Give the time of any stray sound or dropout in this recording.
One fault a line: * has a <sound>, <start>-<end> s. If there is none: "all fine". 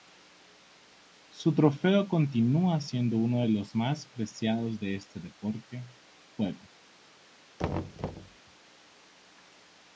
* has a thud, 7.6-8.4 s